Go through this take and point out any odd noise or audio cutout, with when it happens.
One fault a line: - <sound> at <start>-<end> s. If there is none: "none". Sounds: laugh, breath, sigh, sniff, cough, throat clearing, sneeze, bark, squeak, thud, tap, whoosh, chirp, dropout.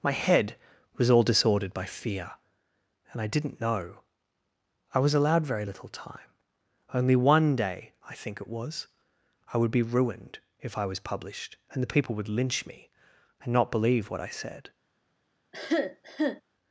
- cough at 15.5-16.4 s